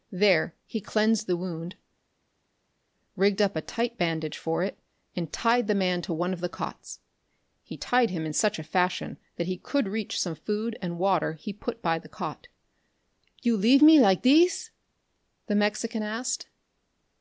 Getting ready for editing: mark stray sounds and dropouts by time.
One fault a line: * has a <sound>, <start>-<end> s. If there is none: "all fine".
all fine